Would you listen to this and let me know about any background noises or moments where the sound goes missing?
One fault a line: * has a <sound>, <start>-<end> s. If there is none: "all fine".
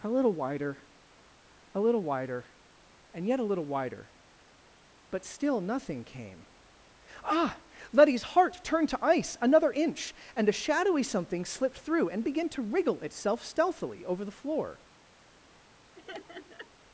* has a laugh, 15.9-16.7 s